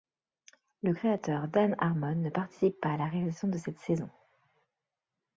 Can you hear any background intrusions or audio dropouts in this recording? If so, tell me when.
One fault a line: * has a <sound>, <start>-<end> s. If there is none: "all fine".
all fine